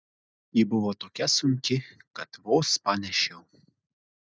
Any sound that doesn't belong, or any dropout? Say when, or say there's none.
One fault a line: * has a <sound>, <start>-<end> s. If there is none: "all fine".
all fine